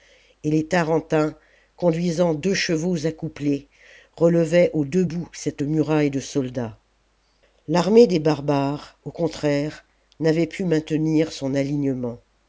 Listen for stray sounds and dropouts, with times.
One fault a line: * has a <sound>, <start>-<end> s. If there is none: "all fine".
all fine